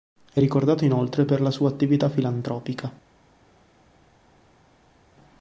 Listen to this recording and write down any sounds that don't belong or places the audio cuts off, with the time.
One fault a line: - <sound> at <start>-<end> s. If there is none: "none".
none